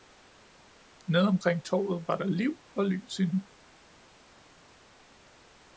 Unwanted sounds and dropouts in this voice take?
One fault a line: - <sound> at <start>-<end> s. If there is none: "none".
none